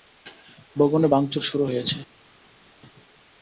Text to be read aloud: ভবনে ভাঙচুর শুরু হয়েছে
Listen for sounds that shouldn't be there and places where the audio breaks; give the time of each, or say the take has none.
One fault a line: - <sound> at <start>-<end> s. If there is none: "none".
none